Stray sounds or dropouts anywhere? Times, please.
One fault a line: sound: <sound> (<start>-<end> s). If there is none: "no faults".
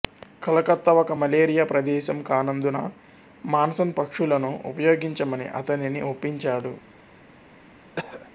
sound: throat clearing (8.0-8.3 s)